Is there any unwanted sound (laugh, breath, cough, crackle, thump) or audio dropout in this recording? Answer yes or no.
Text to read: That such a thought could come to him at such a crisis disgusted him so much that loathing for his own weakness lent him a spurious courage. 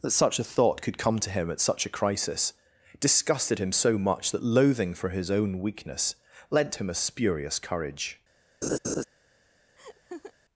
yes